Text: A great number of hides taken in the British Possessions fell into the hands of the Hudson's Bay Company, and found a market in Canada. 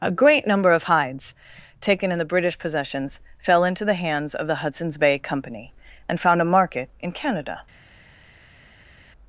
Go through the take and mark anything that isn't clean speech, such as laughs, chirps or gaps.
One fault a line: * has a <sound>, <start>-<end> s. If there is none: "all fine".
all fine